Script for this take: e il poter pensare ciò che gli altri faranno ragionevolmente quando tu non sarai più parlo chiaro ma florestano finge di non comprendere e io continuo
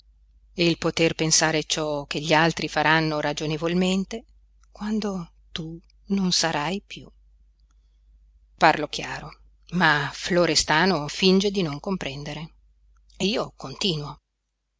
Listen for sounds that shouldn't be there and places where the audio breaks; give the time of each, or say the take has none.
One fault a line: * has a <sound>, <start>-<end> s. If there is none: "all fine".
all fine